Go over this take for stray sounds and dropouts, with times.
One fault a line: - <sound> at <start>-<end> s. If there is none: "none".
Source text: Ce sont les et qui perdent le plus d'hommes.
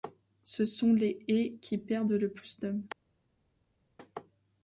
none